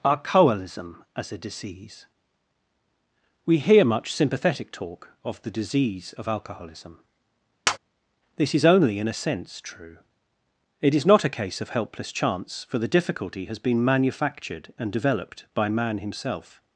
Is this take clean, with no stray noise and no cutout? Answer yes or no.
no